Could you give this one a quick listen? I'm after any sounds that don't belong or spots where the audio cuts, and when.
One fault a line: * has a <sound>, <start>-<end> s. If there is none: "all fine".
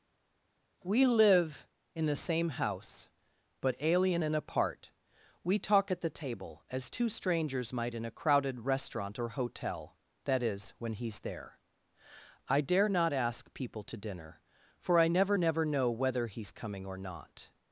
all fine